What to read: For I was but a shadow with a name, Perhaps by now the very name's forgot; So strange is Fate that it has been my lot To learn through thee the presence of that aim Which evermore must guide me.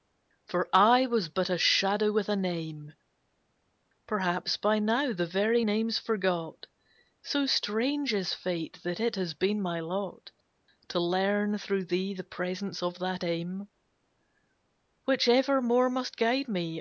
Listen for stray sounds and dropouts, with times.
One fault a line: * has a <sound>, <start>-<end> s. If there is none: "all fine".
all fine